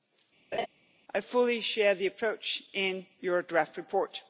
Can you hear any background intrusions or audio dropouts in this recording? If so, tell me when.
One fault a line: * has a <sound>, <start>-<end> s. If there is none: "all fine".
* has a laugh, 0.5-0.7 s